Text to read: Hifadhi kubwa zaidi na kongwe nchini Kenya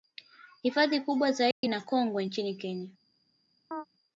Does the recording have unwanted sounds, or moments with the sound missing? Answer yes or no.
yes